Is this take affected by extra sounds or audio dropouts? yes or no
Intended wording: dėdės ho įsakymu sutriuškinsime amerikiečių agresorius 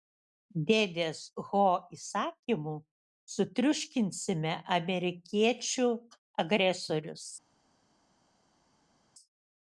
no